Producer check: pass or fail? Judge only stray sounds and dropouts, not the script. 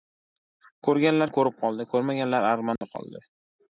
fail